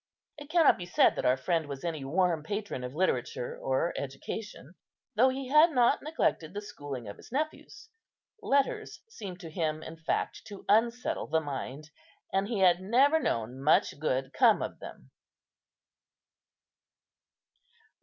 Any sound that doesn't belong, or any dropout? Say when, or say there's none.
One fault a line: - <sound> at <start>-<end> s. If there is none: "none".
none